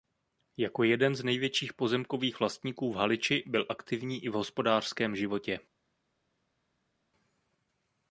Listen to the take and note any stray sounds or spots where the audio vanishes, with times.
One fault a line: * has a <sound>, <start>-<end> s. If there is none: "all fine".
all fine